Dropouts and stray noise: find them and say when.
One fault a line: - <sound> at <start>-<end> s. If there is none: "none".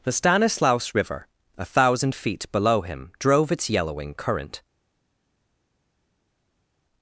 none